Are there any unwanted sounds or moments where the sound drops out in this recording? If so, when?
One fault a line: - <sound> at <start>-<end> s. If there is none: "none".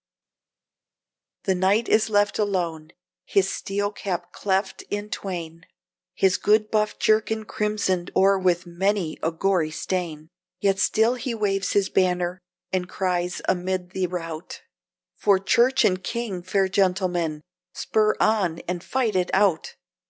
none